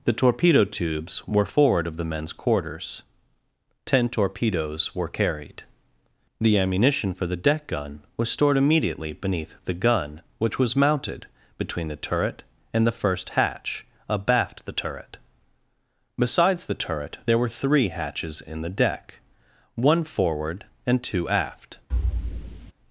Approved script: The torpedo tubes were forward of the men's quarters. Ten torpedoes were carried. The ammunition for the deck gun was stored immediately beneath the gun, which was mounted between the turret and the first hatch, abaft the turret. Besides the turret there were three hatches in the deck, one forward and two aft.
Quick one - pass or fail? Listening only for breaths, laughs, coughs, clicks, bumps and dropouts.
fail